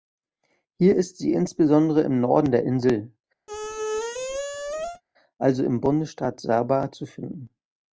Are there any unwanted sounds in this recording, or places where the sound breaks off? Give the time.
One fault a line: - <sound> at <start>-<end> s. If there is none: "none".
- squeak at 3.5-5.0 s